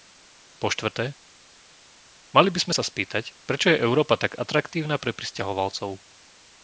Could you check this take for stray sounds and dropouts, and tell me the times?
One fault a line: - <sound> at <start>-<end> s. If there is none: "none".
none